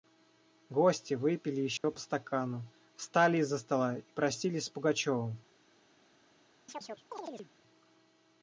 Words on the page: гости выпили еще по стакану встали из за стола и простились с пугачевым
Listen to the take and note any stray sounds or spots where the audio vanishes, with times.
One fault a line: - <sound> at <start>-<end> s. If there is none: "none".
- dropout at 1.8-1.8 s
- chirp at 6.7-7.5 s